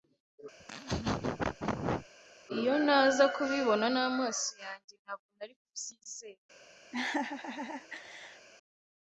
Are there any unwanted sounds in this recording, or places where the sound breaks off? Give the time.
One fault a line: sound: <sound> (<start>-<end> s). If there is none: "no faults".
sound: laugh (0.6-2.1 s)
sound: laugh (6.9-8.5 s)